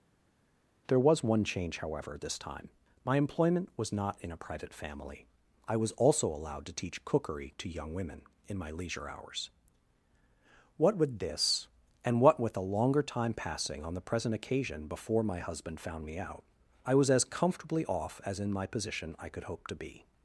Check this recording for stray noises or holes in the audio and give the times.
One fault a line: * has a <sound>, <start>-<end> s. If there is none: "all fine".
all fine